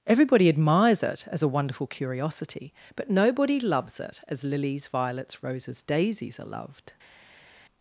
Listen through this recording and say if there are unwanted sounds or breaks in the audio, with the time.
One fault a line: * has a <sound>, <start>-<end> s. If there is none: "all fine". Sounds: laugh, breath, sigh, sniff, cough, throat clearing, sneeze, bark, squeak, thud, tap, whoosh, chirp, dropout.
all fine